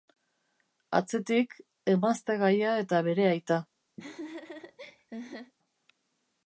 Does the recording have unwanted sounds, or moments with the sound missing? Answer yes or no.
yes